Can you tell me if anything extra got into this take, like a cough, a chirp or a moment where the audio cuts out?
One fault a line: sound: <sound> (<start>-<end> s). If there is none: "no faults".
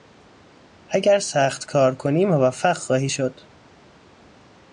no faults